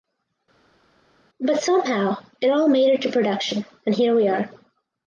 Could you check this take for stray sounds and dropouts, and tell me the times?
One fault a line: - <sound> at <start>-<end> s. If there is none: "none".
none